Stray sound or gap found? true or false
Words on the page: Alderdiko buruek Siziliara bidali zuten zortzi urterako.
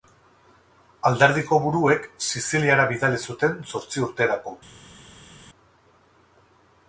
false